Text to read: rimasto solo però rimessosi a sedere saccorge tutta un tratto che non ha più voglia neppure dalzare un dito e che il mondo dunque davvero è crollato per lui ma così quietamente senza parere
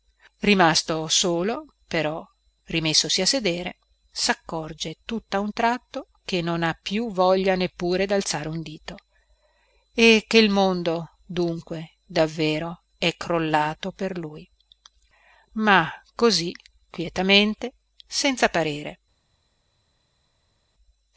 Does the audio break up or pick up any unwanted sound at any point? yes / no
no